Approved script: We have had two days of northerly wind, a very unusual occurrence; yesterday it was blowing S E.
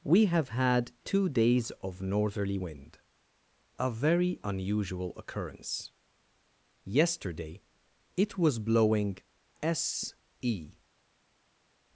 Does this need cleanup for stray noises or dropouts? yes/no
no